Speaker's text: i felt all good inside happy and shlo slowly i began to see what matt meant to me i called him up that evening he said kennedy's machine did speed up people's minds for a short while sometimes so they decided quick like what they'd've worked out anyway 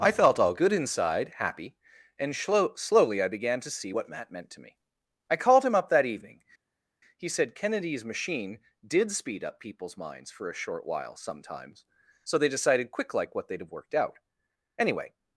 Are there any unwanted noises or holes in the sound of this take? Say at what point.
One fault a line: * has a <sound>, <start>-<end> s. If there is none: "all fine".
all fine